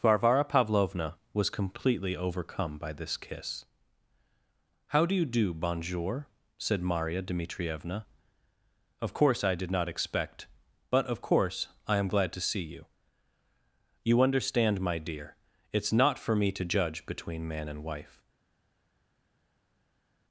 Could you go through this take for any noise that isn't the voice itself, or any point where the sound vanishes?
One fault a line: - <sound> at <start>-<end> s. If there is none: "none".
none